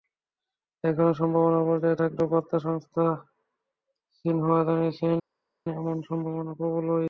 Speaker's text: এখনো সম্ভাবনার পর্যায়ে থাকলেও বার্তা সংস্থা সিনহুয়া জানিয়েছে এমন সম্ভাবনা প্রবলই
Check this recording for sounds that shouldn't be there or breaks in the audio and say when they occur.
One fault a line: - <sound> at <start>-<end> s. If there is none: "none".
none